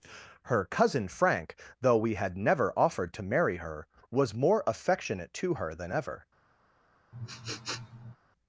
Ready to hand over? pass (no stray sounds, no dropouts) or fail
fail